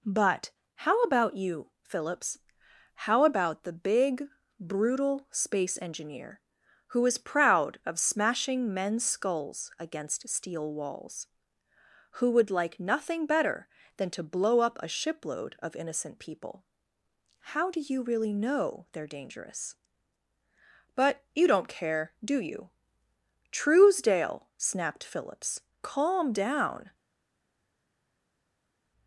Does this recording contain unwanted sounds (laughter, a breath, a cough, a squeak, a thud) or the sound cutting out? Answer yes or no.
no